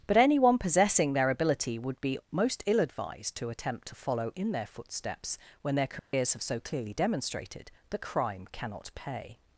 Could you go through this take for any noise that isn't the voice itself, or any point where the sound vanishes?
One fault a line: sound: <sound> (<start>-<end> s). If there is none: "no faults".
sound: dropout (6.0-6.1 s)